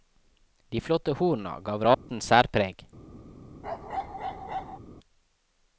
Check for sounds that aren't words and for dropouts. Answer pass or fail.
fail